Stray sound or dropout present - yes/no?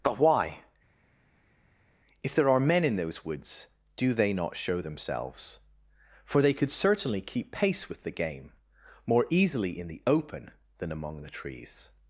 no